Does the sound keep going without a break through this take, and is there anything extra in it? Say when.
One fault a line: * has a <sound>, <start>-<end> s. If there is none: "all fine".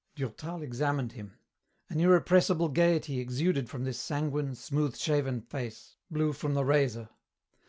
all fine